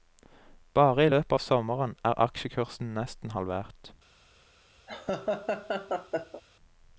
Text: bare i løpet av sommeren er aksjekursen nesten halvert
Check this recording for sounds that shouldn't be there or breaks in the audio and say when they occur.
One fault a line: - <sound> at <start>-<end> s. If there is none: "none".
- laugh at 4.9-6.4 s